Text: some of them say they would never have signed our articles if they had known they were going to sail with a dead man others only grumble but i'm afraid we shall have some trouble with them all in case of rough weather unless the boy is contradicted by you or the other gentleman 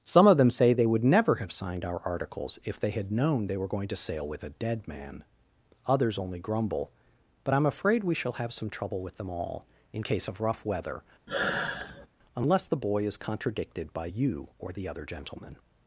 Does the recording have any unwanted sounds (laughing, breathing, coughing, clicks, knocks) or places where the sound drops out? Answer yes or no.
yes